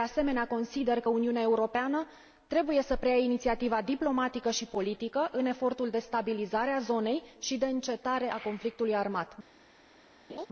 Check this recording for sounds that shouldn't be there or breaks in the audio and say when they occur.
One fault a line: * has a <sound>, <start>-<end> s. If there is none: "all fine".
* has a laugh, 10.3-10.5 s